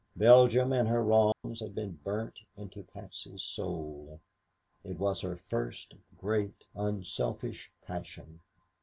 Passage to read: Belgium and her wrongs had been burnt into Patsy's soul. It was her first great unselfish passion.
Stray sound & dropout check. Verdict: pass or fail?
fail